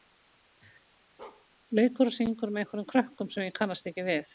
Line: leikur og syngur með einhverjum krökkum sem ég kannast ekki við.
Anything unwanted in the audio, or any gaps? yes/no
yes